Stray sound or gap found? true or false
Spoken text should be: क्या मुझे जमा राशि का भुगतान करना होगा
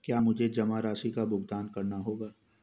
false